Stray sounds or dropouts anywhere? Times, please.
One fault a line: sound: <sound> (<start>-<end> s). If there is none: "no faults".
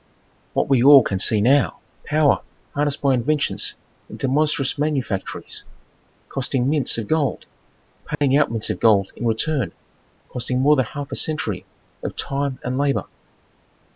sound: dropout (8.1-8.2 s)